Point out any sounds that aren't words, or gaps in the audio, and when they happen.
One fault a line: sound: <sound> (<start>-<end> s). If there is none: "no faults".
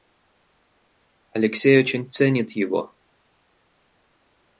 no faults